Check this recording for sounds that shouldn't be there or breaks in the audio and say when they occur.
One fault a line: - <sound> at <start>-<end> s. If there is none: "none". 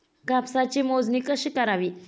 none